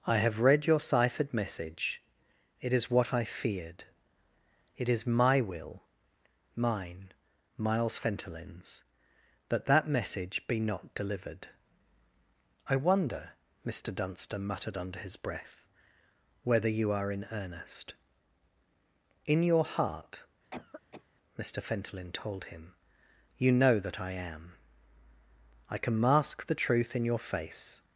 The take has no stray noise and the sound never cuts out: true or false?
false